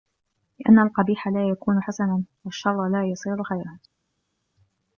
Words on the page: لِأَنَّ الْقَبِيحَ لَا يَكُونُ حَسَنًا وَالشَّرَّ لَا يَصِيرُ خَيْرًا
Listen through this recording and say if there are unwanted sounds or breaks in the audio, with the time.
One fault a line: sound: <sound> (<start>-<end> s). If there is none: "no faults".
no faults